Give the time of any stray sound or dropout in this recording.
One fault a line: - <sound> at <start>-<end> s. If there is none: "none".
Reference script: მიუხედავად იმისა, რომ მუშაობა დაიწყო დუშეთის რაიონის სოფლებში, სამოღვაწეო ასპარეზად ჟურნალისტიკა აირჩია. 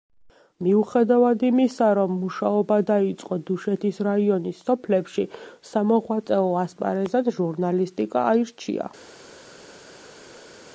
none